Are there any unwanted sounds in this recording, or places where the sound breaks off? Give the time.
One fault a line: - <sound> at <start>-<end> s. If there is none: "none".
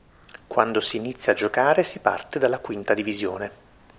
none